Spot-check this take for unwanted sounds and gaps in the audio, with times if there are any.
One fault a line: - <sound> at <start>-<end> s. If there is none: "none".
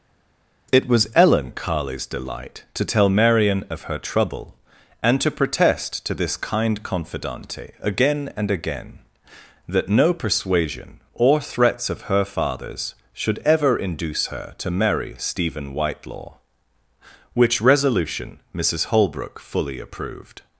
none